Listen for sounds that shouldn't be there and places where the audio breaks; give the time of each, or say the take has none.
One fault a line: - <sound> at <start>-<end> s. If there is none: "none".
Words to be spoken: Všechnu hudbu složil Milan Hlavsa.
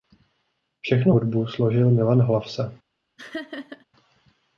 - laugh at 3.2-3.9 s